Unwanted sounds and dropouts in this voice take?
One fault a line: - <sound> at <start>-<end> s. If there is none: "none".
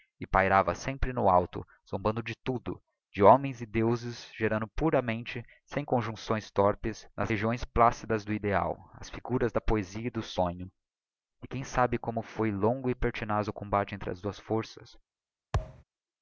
- thud at 15.5-15.8 s